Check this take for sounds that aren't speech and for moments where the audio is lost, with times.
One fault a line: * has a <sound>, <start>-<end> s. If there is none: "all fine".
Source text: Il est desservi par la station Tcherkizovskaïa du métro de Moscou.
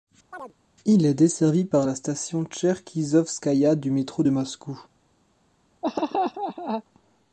* has a chirp, 0.3-0.5 s
* has a laugh, 5.8-6.8 s